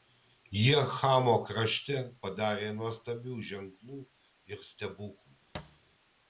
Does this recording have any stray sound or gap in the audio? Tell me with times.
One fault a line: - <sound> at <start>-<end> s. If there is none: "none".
- thud at 5.5-5.8 s